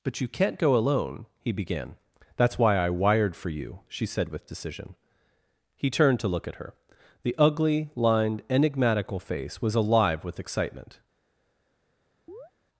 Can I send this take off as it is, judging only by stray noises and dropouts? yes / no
no